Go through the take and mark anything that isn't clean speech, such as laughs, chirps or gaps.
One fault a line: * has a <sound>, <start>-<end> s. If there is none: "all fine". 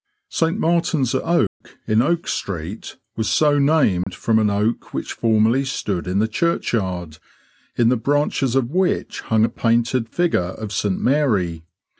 * has a dropout, 1.5-1.6 s
* has a dropout, 4.0-4.1 s